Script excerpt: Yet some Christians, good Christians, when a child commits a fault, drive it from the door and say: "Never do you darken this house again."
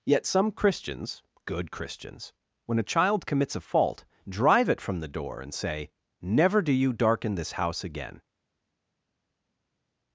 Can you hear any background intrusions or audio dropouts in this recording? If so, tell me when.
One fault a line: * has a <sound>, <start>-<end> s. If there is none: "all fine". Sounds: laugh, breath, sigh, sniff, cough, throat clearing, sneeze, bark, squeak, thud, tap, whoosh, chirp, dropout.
all fine